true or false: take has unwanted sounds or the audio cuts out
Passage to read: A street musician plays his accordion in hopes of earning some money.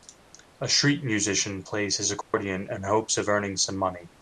true